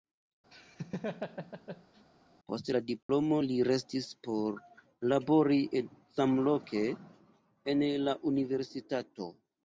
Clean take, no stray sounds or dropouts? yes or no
no